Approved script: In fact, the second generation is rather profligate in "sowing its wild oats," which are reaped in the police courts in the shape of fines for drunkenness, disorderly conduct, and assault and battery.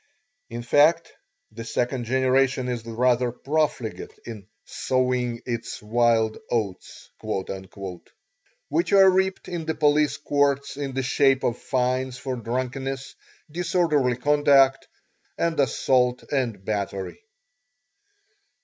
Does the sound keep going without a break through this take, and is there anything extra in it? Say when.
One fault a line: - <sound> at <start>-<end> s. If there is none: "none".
none